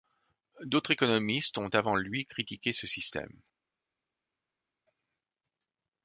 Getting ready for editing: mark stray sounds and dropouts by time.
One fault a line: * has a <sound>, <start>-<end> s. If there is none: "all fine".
all fine